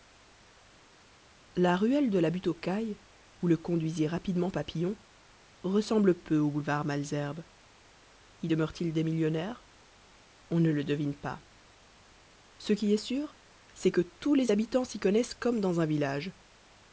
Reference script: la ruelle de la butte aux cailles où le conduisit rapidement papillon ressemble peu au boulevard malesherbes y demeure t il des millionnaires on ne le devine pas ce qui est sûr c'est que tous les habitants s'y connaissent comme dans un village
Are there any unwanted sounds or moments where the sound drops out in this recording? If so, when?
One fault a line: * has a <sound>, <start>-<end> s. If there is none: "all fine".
all fine